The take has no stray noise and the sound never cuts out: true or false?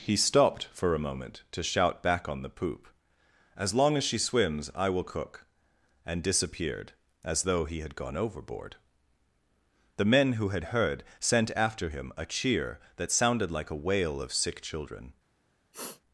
false